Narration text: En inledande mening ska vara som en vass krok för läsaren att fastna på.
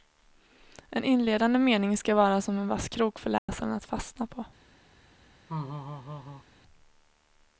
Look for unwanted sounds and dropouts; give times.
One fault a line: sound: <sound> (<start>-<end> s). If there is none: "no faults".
sound: dropout (3.4-3.5 s)
sound: laugh (5.5-6.4 s)